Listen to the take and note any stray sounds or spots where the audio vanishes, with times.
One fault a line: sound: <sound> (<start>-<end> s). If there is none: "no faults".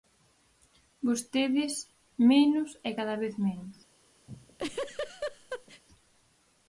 sound: laugh (4.3-5.8 s)